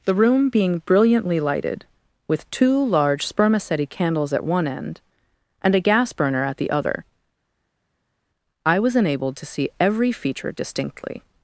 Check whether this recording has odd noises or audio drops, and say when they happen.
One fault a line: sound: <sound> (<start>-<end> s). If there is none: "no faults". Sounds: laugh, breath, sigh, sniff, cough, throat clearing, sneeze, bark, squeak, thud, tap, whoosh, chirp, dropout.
no faults